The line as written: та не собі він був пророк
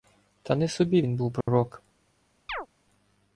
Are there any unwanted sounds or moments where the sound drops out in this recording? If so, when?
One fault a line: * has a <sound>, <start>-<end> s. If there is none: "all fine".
* has a dropout, 1.4-1.5 s
* has a chirp, 2.5-2.7 s